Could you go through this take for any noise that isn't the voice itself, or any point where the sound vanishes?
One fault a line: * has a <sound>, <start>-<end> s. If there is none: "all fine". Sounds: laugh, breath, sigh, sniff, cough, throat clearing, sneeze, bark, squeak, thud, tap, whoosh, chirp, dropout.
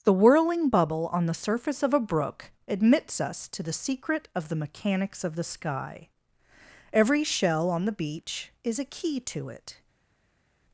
all fine